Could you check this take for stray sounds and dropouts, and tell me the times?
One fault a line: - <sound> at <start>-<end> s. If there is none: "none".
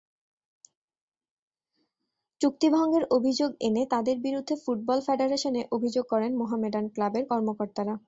none